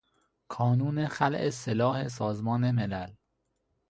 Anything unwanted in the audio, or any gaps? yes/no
no